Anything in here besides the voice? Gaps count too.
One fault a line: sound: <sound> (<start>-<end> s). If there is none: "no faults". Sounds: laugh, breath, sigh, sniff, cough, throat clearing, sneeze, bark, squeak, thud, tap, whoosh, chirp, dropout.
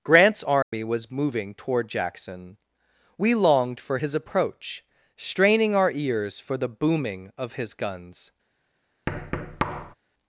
sound: dropout (0.6-0.7 s)
sound: thud (9.1-9.9 s)